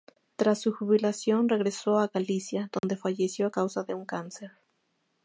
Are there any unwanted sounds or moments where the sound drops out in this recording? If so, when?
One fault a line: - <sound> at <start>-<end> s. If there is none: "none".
- dropout at 2.8-2.8 s